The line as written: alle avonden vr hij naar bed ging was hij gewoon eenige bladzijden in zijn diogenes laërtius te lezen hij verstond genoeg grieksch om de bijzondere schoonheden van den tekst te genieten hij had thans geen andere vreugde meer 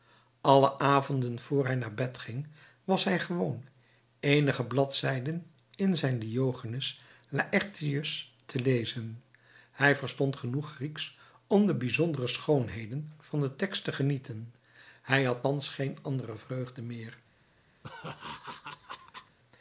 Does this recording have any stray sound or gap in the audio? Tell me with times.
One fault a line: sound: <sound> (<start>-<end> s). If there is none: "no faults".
sound: laugh (17.8-19.4 s)